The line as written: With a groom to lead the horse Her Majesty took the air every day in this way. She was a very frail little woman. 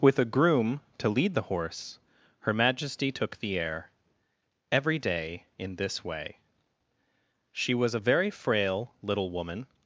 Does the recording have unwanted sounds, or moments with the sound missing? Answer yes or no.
no